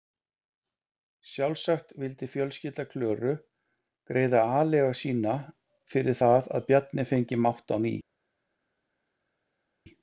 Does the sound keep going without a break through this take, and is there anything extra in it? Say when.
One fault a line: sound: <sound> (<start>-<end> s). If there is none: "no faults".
no faults